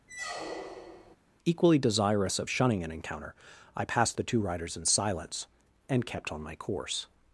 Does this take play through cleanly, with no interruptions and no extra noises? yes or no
no